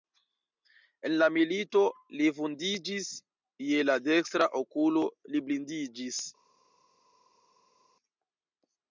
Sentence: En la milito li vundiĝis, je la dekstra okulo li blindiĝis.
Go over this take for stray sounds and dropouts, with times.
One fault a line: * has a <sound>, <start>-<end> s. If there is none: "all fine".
all fine